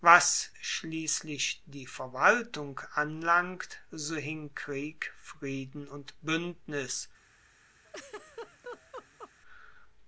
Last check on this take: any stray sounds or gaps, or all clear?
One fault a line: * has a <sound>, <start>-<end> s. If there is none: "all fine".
* has a laugh, 7.8-9.3 s